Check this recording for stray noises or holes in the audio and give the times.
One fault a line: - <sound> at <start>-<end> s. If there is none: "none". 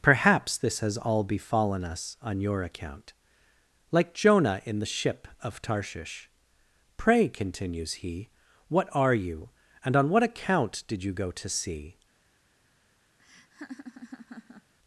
- laugh at 13.2-14.7 s